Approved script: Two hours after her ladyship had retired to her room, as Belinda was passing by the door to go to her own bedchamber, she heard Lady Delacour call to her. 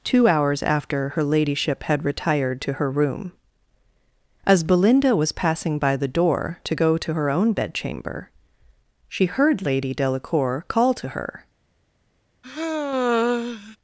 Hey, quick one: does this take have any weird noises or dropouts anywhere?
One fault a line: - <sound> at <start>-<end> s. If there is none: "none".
- sigh at 12.4-13.8 s